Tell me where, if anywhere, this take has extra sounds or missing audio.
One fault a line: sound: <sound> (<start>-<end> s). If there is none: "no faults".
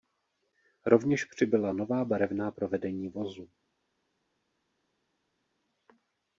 no faults